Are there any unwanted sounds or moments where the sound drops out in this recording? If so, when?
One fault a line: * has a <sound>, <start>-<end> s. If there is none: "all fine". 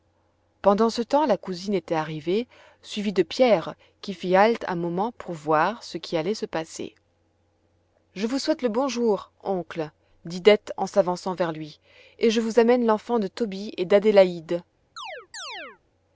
* has a chirp, 15.0-15.8 s